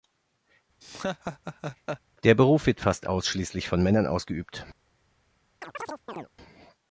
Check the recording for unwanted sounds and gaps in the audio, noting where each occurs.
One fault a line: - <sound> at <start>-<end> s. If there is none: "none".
- laugh at 0.8-2.0 s
- chirp at 5.6-6.3 s